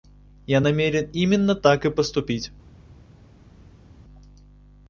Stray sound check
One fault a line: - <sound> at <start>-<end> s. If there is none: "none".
none